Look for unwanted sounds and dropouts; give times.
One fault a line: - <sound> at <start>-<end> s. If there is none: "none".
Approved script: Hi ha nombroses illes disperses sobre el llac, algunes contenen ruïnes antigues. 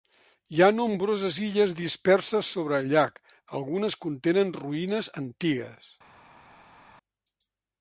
none